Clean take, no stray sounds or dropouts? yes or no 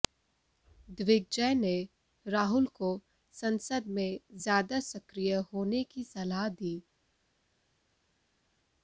yes